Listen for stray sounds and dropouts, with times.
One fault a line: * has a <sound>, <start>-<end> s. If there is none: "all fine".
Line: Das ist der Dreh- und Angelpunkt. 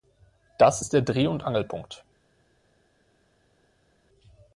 all fine